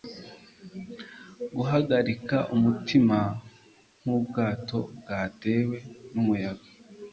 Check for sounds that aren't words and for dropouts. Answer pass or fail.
pass